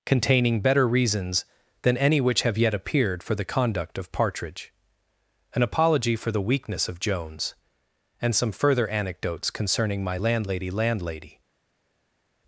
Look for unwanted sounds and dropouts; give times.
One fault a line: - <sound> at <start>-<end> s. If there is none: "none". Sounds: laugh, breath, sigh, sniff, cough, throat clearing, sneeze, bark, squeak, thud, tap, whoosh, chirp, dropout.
none